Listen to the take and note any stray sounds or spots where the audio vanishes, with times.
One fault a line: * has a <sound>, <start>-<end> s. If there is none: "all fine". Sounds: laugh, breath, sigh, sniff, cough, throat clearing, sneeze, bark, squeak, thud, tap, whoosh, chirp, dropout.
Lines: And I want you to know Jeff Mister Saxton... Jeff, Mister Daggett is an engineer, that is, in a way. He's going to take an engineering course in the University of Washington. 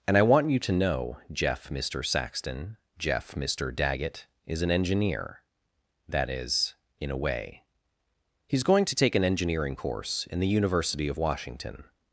all fine